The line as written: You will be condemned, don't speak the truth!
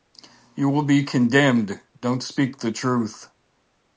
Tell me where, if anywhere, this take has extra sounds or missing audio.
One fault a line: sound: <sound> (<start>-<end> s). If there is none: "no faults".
no faults